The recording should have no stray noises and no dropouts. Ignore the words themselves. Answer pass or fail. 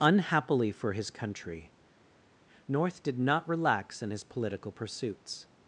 pass